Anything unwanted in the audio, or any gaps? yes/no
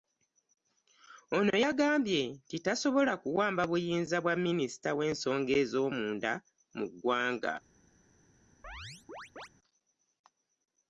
yes